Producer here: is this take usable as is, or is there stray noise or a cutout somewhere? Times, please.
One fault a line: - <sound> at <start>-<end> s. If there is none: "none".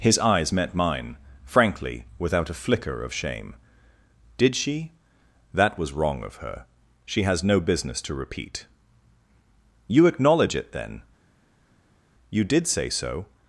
none